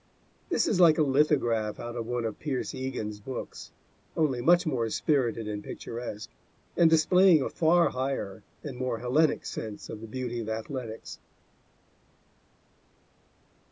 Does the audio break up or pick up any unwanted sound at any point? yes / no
no